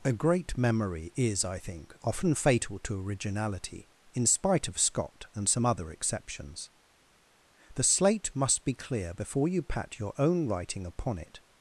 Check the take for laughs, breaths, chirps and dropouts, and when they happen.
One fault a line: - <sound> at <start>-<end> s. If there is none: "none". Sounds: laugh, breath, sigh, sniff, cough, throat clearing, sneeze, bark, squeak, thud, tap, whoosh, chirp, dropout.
none